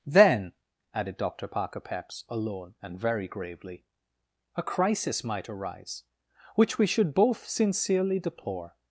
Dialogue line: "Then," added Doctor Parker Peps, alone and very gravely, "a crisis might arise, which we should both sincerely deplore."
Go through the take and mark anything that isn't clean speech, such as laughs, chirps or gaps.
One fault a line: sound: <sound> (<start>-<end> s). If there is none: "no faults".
no faults